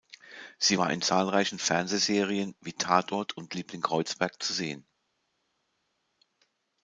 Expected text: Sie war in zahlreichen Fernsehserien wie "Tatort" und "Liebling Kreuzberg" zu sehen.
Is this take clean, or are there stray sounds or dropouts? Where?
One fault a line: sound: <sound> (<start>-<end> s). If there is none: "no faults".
no faults